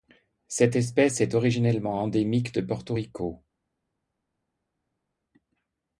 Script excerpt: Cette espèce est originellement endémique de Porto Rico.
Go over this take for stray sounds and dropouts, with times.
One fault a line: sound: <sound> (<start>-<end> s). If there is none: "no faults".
no faults